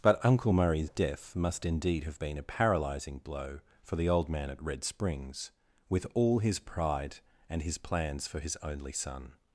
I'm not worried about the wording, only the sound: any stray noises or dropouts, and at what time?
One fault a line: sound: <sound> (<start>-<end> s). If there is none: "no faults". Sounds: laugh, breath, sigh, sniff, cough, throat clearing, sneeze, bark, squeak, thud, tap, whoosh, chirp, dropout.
no faults